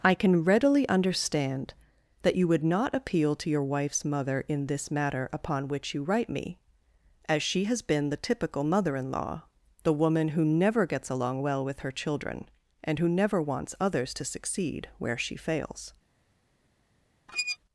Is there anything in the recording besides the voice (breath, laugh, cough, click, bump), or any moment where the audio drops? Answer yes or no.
yes